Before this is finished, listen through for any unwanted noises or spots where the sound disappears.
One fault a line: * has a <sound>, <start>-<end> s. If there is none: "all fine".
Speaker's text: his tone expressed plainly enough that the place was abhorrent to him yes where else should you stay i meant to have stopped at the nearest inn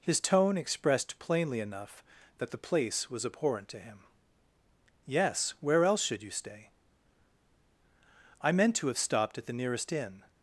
all fine